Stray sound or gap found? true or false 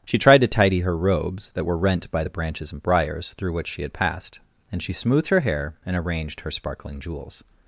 false